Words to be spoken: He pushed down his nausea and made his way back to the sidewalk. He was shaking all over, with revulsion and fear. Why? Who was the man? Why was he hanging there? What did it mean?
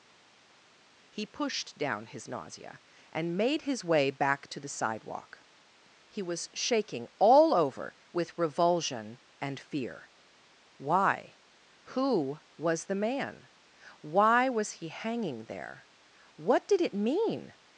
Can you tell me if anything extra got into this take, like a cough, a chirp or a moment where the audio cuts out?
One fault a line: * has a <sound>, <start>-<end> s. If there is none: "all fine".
all fine